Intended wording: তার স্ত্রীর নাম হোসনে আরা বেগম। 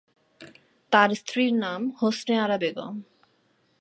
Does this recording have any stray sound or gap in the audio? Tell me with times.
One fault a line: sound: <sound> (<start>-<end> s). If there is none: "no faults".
no faults